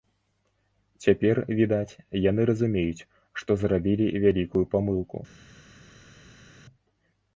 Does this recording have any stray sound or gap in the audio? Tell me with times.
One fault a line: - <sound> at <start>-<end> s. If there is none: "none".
none